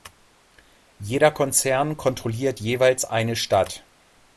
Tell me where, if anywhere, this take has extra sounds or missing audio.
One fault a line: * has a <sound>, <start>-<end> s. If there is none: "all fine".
all fine